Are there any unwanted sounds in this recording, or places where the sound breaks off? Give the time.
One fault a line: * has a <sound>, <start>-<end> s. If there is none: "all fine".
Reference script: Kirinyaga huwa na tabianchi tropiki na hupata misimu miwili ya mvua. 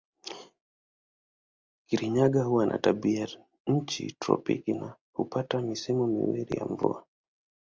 all fine